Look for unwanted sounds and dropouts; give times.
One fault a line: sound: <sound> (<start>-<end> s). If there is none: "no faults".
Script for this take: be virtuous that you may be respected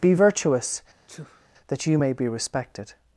sound: sneeze (1.1-1.5 s)